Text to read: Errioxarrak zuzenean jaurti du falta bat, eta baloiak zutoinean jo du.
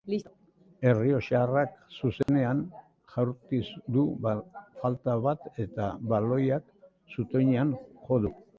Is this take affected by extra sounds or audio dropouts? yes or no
yes